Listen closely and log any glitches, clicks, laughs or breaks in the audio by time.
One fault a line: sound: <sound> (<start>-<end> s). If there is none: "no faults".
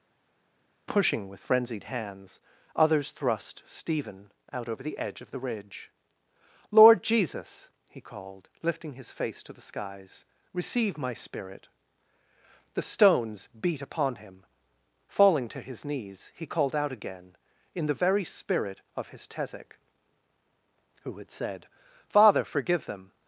no faults